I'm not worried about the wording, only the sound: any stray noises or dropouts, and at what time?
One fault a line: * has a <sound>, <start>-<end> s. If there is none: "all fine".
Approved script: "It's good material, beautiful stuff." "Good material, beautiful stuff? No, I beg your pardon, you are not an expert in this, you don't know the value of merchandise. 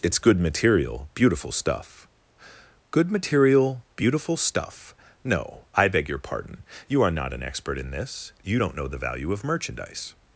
all fine